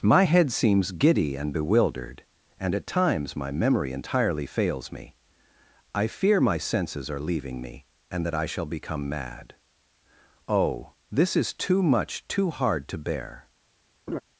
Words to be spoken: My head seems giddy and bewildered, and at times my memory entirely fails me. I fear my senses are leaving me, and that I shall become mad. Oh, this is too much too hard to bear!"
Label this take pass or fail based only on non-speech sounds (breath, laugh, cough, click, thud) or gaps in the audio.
fail